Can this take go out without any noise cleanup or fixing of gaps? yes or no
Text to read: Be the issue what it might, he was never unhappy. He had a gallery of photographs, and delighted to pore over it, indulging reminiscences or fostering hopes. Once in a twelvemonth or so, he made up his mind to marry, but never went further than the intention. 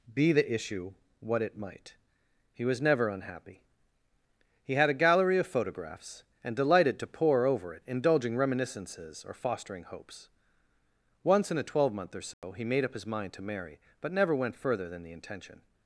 no